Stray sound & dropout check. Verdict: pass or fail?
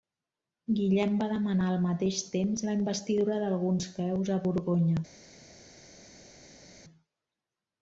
pass